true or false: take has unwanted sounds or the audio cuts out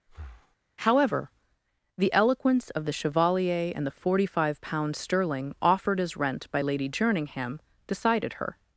true